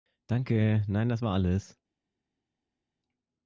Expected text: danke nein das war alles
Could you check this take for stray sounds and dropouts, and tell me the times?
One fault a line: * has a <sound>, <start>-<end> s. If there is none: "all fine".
all fine